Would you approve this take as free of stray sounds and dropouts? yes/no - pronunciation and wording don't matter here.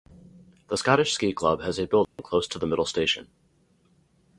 no